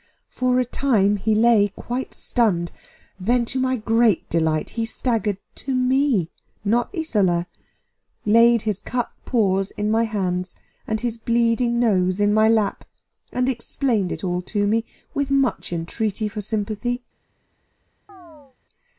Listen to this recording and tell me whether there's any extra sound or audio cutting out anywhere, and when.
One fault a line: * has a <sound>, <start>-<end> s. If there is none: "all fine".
* has a chirp, 18.1-18.6 s